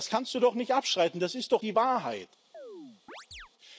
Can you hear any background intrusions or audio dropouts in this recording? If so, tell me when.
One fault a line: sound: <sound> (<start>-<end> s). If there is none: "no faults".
sound: chirp (2.5-3.5 s)